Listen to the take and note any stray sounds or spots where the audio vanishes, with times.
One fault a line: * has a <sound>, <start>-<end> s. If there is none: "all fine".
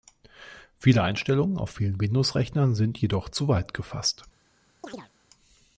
* has a chirp, 4.8-5.1 s